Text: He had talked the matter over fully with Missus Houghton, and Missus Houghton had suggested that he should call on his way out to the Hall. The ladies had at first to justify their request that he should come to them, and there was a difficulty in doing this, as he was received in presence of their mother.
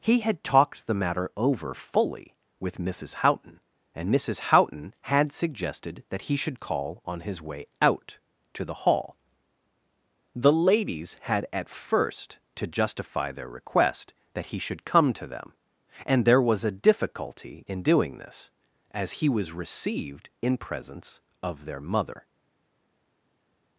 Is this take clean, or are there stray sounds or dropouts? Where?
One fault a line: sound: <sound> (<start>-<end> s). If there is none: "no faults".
no faults